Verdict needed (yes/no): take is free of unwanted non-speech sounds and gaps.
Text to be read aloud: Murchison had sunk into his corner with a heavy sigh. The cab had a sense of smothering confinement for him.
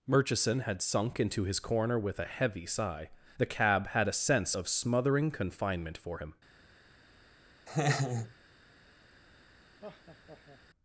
no